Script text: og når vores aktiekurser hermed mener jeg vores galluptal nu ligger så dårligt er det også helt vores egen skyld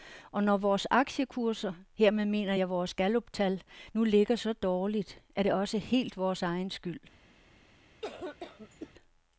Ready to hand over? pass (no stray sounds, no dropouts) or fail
fail